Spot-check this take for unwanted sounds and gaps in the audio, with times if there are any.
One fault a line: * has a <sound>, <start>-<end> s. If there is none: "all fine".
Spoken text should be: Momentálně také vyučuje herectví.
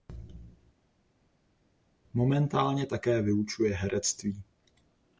all fine